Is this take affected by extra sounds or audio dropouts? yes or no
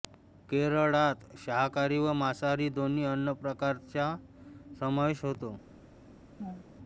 yes